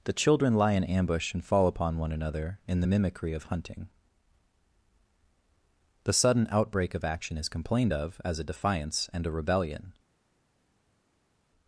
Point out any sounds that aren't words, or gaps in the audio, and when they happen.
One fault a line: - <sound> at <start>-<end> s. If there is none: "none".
none